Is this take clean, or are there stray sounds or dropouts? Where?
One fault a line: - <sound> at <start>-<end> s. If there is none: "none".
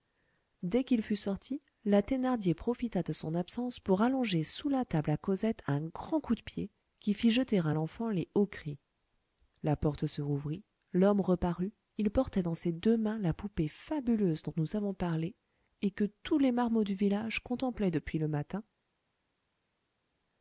none